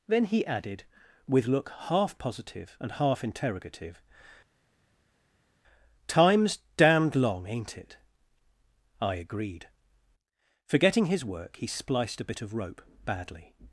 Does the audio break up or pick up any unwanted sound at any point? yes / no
no